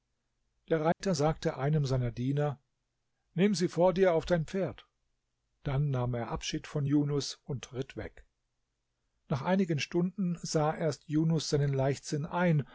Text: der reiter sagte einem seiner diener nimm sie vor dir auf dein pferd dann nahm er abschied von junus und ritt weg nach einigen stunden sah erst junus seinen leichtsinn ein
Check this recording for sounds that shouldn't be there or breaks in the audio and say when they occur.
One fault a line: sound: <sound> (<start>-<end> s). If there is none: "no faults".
sound: dropout (0.9-1.0 s)